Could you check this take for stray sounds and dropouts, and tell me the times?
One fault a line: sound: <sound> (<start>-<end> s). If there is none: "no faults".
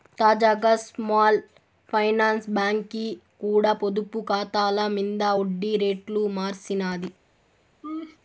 sound: laugh (7.8-8.2 s)